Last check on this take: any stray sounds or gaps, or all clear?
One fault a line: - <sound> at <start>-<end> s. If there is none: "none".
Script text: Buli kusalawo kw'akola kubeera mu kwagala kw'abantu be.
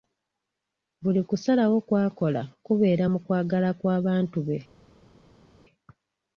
none